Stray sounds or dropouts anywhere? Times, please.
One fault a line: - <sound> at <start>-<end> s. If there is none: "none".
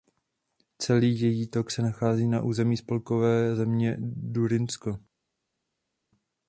none